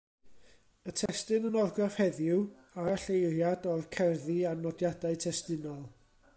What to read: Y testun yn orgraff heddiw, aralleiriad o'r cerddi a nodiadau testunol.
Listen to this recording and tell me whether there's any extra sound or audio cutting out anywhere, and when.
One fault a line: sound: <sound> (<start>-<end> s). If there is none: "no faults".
sound: dropout (1.1-1.1 s)